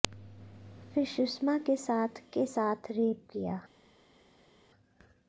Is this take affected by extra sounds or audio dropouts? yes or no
no